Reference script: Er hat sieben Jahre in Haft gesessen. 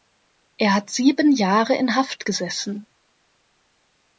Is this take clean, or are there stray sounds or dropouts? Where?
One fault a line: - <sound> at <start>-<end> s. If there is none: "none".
none